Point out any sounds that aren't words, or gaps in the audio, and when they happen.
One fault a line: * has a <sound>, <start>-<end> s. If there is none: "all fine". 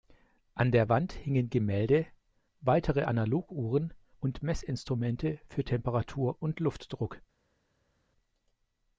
all fine